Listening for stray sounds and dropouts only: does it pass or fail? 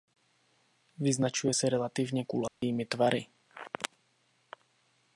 fail